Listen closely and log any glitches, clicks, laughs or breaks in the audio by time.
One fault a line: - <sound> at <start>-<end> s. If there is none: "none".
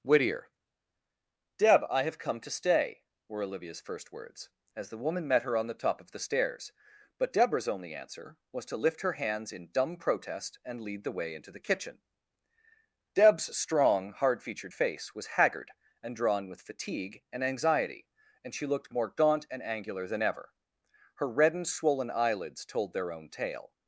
none